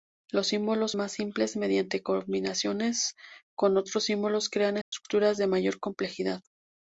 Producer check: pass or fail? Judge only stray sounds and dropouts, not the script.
fail